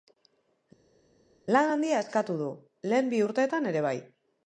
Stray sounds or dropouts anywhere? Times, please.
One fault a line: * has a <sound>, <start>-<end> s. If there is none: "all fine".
all fine